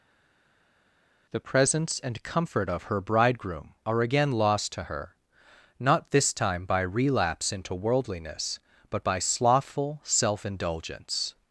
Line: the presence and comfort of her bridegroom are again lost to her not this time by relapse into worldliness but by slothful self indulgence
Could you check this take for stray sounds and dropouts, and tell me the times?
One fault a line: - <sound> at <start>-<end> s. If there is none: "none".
none